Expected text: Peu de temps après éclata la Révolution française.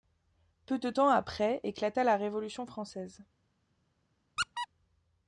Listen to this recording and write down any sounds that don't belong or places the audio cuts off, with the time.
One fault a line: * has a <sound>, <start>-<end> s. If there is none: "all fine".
* has a squeak, 4.4-4.7 s